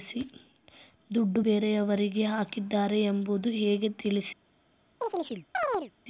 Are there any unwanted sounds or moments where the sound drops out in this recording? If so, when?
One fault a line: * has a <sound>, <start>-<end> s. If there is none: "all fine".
* has a chirp, 5.0-5.9 s